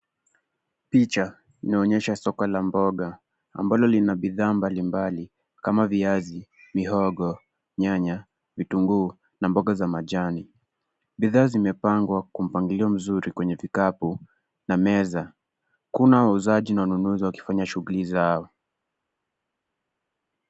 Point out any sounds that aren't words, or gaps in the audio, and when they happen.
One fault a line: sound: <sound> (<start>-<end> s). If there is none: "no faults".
no faults